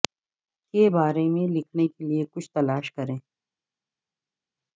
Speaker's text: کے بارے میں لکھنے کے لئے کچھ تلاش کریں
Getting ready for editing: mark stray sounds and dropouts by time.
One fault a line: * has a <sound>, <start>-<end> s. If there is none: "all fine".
all fine